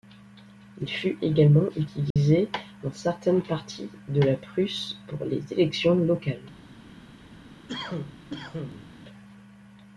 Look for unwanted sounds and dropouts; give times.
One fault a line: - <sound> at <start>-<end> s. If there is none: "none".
- dropout at 2.1-2.2 s
- cough at 7.7-8.9 s